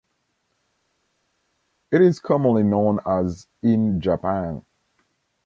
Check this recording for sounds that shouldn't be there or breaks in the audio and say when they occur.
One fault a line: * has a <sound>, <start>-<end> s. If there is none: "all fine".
all fine